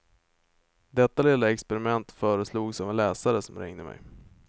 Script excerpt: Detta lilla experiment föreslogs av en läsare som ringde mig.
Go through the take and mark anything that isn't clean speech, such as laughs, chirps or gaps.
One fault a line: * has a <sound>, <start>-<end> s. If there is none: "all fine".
all fine